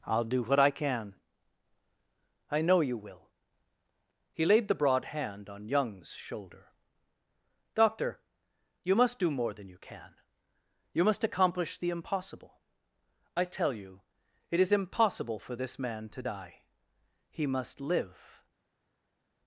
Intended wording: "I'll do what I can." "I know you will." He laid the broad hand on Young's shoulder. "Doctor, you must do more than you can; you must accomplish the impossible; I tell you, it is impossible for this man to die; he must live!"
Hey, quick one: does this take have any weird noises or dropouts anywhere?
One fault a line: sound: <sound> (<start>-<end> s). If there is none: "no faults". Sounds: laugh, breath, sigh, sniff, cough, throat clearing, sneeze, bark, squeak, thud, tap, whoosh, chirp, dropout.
no faults